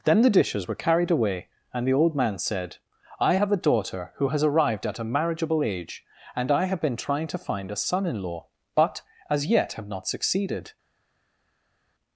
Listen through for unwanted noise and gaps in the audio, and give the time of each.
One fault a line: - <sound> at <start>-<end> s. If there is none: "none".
none